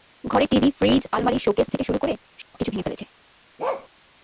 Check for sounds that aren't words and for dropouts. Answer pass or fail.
fail